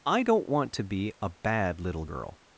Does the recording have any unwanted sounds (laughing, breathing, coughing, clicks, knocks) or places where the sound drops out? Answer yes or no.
no